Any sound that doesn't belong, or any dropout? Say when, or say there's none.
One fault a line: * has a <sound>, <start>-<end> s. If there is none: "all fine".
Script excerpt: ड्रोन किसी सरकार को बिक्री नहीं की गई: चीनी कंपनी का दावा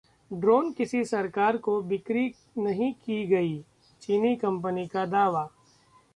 all fine